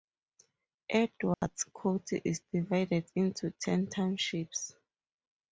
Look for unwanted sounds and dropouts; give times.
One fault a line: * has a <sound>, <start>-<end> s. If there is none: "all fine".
* has a dropout, 1.3-1.4 s